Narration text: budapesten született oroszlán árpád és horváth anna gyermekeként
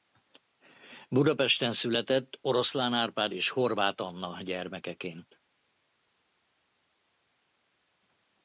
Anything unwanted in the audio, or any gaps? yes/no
no